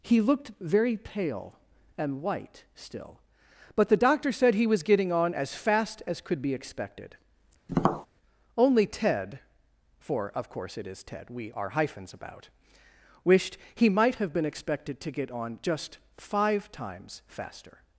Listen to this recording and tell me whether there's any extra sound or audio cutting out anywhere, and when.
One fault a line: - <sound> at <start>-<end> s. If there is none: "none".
- tap at 7.7-8.1 s